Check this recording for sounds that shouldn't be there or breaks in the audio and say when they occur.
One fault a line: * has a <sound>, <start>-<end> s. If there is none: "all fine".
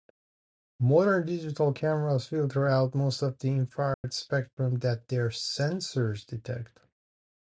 * has a dropout, 3.9-4.0 s